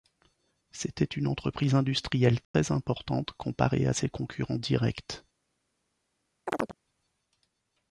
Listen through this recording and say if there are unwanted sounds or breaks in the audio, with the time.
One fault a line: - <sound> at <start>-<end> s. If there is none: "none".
- dropout at 2.4-2.5 s
- chirp at 6.5-6.7 s